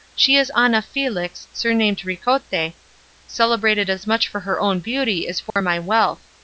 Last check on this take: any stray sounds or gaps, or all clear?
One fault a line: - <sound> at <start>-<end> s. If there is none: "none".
- dropout at 5.5-5.6 s